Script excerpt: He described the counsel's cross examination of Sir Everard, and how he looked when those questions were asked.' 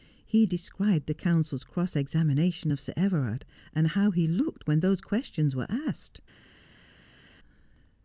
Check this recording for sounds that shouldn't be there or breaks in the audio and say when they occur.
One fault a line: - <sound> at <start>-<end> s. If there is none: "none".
none